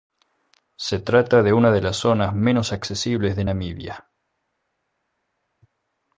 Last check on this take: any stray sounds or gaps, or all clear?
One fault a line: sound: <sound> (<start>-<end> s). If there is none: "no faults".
no faults